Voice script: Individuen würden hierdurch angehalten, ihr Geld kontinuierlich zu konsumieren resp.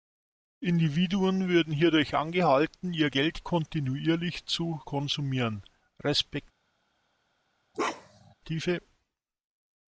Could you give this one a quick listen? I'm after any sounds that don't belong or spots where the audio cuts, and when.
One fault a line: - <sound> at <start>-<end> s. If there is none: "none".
- bark at 7.7-8.3 s